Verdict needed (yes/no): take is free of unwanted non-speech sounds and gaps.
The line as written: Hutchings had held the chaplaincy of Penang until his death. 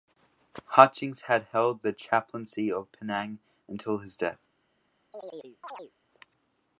no